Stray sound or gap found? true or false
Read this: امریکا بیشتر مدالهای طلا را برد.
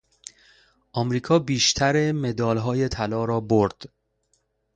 false